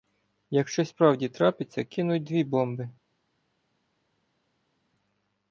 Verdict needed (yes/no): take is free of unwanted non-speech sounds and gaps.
yes